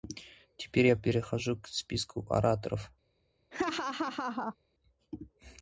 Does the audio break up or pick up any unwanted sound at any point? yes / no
yes